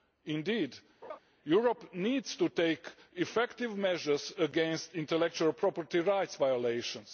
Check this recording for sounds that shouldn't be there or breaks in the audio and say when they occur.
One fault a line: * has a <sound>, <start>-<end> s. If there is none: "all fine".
* has a laugh, 1.0-1.2 s